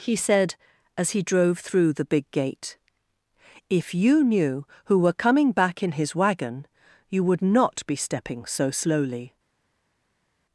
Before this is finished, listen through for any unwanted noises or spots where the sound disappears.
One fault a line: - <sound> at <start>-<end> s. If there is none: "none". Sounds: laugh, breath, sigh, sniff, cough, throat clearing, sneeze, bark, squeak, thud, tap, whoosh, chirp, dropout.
none